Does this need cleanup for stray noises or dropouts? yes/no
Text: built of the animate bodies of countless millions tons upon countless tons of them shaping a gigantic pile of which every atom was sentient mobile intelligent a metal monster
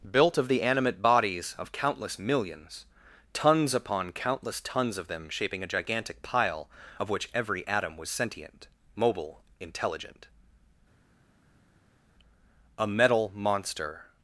no